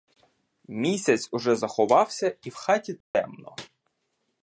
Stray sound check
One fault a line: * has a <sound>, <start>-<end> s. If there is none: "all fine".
* has a dropout, 3.0-3.1 s